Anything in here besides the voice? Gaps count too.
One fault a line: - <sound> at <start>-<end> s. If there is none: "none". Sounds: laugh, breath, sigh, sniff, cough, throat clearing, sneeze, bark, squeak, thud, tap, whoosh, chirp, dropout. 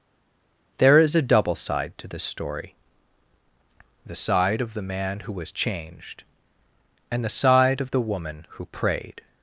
none